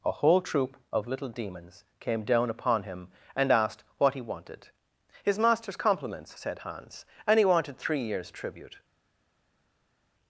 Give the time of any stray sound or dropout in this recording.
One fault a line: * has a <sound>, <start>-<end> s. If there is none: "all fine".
all fine